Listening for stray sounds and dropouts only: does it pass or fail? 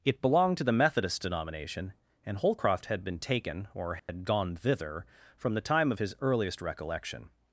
fail